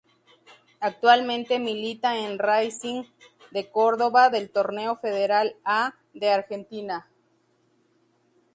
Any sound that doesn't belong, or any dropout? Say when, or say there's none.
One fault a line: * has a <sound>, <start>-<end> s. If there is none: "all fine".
all fine